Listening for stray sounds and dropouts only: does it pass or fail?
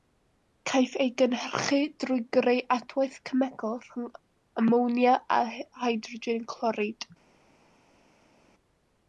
pass